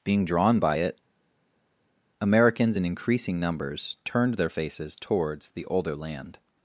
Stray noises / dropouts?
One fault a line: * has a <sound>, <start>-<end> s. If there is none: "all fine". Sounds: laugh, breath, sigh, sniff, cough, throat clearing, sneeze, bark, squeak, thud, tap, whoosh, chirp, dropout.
all fine